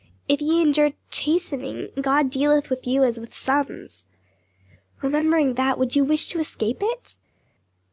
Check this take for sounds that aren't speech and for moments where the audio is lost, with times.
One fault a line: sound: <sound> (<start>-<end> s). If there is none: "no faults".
no faults